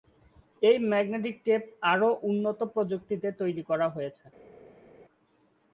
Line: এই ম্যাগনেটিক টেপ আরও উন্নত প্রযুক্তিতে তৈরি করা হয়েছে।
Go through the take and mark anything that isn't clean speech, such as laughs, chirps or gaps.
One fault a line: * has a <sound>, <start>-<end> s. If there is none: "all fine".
all fine